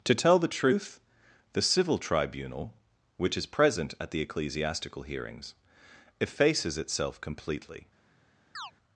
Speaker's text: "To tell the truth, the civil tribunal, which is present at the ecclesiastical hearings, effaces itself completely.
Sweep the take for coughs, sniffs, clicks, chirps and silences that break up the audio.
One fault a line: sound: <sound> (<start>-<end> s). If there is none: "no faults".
sound: chirp (8.5-8.7 s)